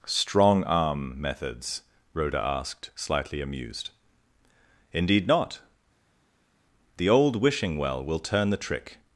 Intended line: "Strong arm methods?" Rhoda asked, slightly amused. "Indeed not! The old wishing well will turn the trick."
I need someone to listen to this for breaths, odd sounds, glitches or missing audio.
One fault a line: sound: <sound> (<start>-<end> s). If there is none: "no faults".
no faults